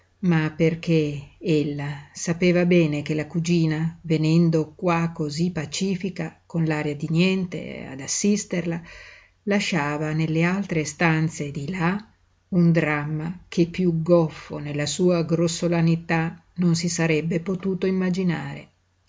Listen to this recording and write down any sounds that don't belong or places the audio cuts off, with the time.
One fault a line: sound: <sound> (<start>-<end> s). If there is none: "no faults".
no faults